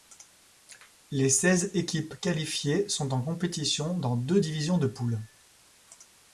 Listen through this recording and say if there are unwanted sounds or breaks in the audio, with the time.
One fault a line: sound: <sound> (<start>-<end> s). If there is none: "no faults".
no faults